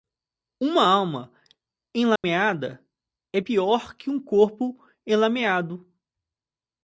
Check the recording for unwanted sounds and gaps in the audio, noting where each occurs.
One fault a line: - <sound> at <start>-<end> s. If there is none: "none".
- dropout at 2.2-2.2 s